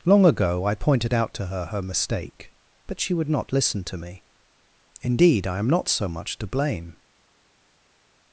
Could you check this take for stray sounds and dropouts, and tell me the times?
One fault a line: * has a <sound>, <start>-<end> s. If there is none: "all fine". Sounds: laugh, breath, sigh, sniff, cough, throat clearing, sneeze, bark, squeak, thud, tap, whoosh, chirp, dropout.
all fine